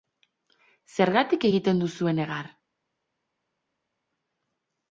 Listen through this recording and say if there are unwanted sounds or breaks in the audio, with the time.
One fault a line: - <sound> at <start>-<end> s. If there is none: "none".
none